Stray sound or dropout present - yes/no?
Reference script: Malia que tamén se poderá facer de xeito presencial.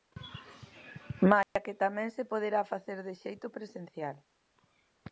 yes